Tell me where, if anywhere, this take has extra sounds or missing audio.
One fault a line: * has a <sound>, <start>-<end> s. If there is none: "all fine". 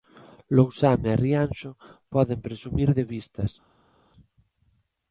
all fine